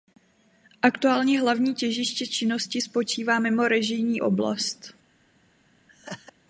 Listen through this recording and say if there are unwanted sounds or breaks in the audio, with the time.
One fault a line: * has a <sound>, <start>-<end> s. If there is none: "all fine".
* has a laugh, 5.9-6.3 s